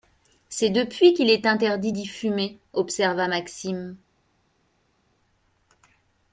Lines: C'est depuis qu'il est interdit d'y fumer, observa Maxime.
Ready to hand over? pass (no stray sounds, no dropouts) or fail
pass